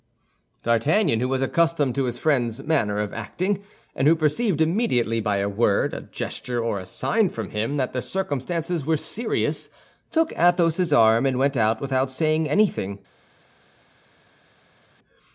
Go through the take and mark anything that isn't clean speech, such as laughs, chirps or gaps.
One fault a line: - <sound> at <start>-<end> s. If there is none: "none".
none